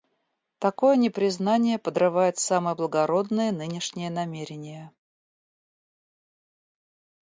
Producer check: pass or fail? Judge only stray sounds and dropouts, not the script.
pass